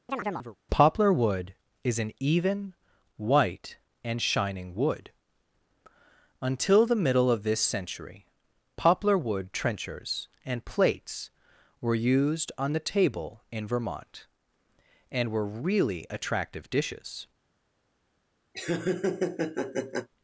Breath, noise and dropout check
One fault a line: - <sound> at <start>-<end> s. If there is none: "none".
- chirp at 0.1-0.6 s
- laugh at 18.5-20.1 s